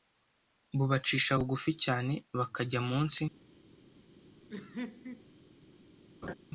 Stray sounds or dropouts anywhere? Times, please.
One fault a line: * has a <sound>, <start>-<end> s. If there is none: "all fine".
* has a laugh, 4.5-5.3 s
* has a laugh, 6.2-6.3 s